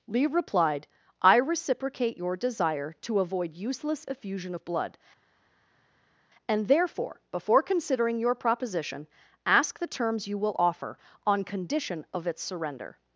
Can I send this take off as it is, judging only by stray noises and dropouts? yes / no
yes